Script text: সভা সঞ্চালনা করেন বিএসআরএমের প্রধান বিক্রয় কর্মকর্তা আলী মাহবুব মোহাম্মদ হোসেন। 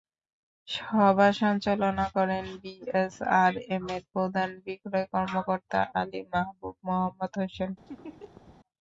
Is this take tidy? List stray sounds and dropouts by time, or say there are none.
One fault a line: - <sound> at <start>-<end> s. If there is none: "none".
- laugh at 7.9-8.6 s